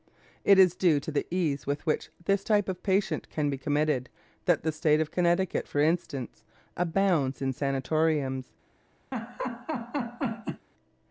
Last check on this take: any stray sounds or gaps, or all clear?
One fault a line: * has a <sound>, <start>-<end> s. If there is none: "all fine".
* has a laugh, 9.1-10.7 s